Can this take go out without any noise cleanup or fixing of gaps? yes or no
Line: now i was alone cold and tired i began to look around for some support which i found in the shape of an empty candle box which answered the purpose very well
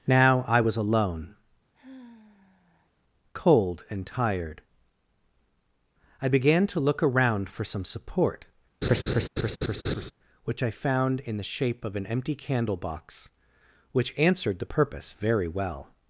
no